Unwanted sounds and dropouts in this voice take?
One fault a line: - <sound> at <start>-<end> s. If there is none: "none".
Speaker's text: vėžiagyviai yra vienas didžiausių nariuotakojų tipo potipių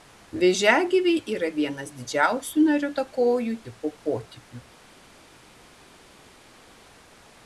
none